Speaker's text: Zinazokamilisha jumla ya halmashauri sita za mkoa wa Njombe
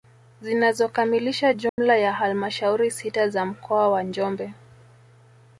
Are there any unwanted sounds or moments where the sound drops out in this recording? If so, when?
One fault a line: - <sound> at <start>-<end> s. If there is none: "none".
- dropout at 1.7-1.8 s